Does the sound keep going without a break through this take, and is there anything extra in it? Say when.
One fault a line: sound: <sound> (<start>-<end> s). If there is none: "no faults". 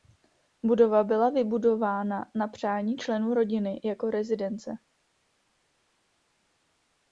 no faults